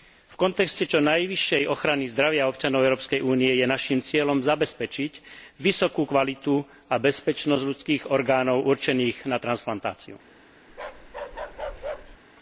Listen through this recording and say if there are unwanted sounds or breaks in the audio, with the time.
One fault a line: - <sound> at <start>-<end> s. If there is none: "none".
- bark at 10.7-12.2 s